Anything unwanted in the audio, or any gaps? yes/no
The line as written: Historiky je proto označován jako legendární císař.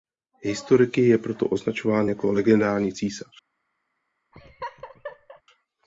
yes